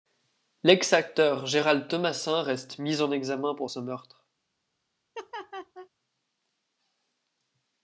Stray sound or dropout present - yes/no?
yes